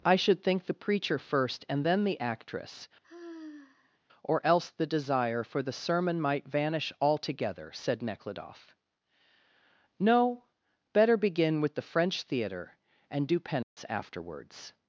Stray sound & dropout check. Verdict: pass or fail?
fail